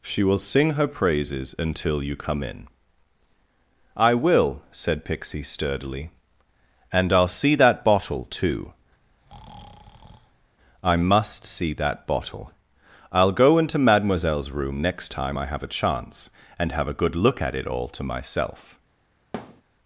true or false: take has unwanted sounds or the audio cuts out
true